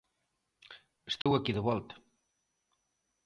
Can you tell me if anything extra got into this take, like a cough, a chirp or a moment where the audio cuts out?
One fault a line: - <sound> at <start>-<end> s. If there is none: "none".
- dropout at 1.2-1.3 s